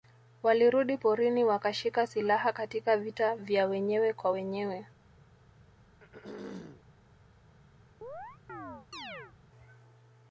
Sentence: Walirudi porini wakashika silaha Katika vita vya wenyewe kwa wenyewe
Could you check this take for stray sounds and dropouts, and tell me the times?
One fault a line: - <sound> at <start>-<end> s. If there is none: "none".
- throat clearing at 6.0-6.8 s
- chirp at 8.0-9.3 s